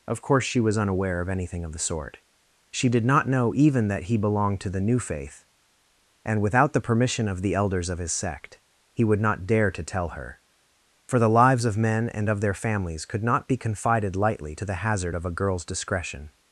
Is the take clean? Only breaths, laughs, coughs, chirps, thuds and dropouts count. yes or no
yes